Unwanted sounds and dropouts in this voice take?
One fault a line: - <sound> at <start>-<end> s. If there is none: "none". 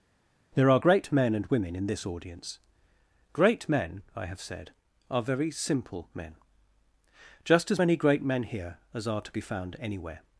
none